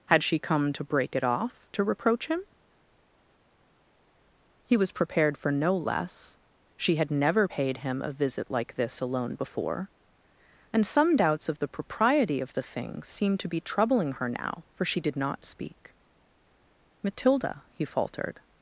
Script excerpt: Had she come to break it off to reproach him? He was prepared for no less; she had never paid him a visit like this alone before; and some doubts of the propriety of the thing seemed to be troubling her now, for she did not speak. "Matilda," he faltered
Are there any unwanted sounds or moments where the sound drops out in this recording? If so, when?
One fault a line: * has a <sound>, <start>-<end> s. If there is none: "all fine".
all fine